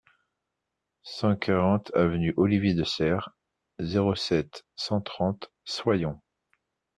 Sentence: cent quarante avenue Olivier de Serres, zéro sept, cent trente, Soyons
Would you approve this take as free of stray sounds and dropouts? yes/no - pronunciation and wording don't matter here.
yes